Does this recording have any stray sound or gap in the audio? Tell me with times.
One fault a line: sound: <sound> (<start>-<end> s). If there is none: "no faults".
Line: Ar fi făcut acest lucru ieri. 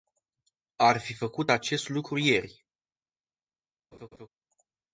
sound: laugh (3.9-4.3 s)